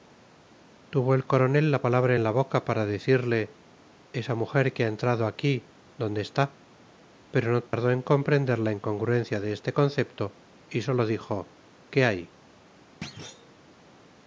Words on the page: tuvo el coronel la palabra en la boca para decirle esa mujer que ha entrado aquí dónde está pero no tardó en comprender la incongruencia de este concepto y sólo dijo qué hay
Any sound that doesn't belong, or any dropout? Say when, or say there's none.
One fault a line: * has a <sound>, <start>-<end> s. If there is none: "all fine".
* has a dropout, 7.7-7.7 s
* has a thud, 13.0-13.6 s